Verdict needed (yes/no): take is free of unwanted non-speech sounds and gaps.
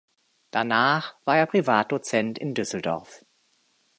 yes